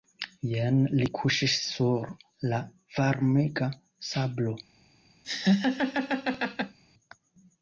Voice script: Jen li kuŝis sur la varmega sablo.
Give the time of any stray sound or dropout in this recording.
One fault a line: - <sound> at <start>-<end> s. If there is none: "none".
- laugh at 5.2-6.8 s